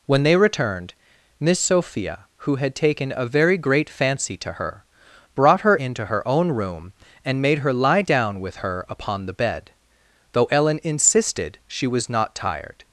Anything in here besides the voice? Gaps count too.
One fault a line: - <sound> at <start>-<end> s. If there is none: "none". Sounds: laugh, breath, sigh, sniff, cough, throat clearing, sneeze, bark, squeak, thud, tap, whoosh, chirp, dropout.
none